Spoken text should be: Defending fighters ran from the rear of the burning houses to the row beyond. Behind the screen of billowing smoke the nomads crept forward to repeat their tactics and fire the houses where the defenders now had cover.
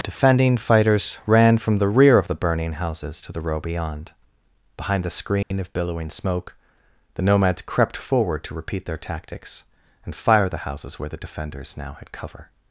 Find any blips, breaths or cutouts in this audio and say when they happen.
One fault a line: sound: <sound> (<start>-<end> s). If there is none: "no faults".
sound: dropout (5.4-5.5 s)